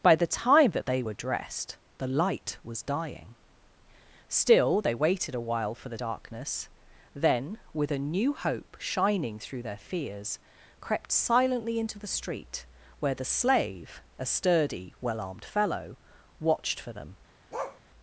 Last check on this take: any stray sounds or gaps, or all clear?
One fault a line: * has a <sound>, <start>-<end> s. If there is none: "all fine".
* has a bark, 17.5-17.8 s